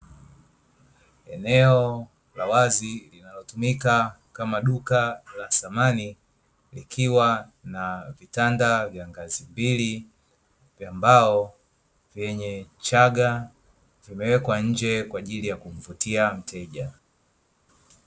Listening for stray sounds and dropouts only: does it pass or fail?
pass